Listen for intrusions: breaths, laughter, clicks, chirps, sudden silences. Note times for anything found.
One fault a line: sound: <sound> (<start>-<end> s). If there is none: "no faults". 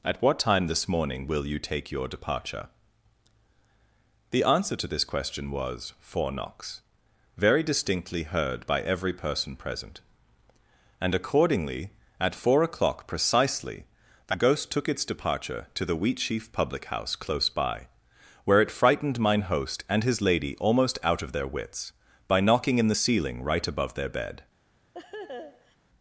sound: laugh (24.9-25.8 s)